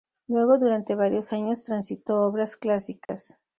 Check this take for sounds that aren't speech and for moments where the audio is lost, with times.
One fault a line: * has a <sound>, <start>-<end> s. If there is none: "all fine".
* has a dropout, 3.1-3.1 s